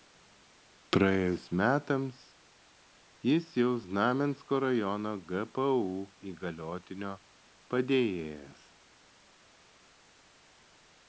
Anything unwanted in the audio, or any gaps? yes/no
no